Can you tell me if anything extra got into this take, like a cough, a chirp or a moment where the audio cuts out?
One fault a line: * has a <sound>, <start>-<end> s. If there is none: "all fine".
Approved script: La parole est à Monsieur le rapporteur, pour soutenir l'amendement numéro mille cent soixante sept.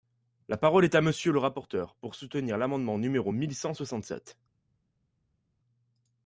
all fine